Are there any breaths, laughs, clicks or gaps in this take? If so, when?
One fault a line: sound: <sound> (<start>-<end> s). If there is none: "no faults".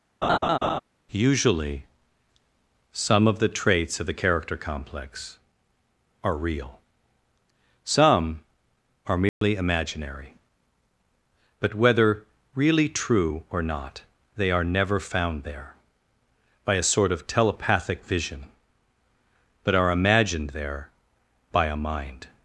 sound: laugh (0.2-0.8 s)
sound: dropout (9.3-9.4 s)